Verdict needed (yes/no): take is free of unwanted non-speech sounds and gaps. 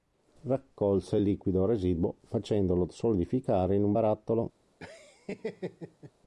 no